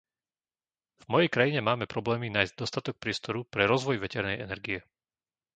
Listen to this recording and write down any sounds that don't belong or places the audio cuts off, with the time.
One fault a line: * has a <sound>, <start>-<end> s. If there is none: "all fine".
all fine